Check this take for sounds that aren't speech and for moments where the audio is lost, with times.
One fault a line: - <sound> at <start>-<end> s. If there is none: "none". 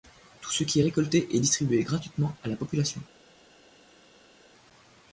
none